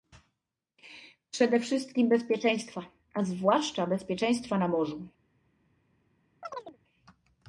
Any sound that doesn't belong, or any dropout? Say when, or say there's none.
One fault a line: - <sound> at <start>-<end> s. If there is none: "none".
- chirp at 6.4-6.8 s